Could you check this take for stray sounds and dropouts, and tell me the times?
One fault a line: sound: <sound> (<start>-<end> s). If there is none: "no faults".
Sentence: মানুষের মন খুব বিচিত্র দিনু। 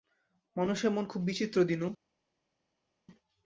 no faults